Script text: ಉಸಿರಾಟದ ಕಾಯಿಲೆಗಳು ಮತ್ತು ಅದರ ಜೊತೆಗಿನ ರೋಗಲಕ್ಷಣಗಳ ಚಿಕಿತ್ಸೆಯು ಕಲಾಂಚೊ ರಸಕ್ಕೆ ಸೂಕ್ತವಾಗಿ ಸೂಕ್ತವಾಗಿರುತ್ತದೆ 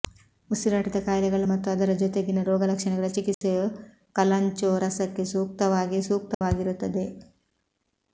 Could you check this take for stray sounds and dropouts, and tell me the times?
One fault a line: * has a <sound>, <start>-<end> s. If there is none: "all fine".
* has a dropout, 3.3-3.4 s
* has a dropout, 6.3-6.4 s